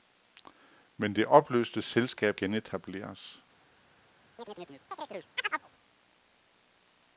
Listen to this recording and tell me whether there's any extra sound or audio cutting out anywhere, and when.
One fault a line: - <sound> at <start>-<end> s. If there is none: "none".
- chirp at 4.4-5.7 s